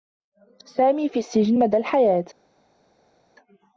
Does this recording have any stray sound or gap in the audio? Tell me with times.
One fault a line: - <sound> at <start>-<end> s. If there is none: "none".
none